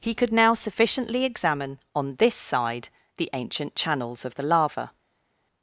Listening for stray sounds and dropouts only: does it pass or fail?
pass